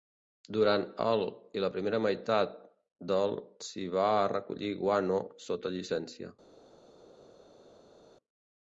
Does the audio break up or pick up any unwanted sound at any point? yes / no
no